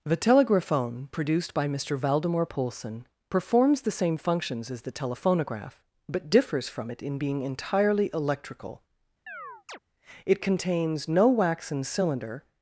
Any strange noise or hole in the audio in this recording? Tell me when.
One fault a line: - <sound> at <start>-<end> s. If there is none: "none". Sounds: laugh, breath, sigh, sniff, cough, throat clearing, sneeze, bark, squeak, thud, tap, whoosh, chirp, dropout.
- chirp at 9.3-9.8 s